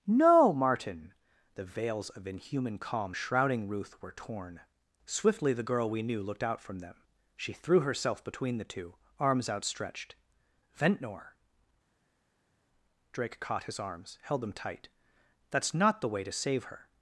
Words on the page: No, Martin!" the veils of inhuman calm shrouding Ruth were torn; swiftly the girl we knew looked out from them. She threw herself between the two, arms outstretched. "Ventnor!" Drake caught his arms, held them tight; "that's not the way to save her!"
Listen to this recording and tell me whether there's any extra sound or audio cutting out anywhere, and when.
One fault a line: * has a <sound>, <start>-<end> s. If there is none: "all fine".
all fine